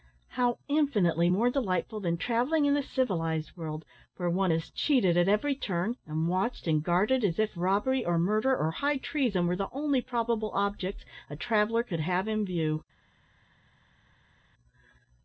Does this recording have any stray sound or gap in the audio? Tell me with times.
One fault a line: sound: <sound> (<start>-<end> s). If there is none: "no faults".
no faults